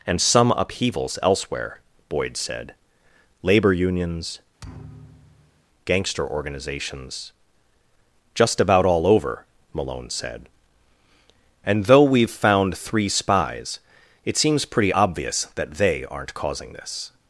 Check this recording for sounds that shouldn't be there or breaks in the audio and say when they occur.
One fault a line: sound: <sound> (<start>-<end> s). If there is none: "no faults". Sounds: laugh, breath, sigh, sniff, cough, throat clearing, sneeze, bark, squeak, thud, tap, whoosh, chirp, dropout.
sound: thud (4.6-5.6 s)